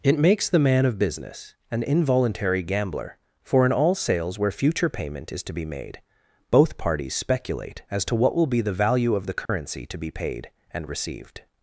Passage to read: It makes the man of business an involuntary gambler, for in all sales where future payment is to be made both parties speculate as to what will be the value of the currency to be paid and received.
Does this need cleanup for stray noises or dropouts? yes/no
yes